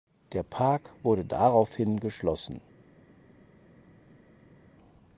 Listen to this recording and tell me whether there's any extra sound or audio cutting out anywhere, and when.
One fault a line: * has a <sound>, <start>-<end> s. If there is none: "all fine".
all fine